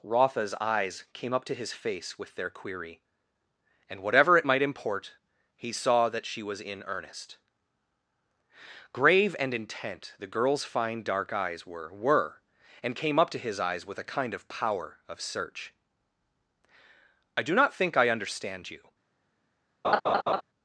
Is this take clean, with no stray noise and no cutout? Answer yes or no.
no